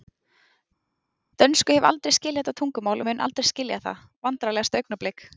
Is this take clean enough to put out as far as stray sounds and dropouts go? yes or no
yes